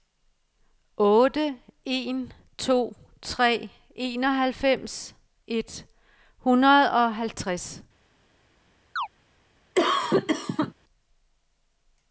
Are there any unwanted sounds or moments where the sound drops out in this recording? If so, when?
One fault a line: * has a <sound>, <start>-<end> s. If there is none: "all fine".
* has a chirp, 9.0-9.1 s
* has a cough, 9.7-10.7 s